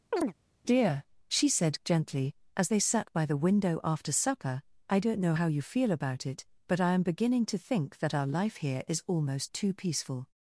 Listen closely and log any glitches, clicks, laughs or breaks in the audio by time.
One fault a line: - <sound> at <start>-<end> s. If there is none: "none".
- chirp at 0.1-0.3 s